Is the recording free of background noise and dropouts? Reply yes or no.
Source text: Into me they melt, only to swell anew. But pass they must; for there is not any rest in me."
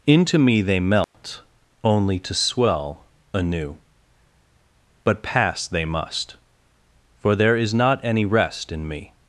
no